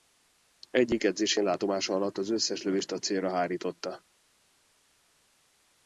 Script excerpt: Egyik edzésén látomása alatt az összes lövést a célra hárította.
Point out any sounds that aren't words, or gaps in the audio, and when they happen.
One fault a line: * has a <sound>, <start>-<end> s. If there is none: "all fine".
all fine